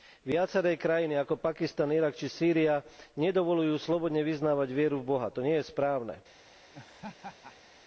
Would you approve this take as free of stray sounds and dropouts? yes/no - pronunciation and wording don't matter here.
no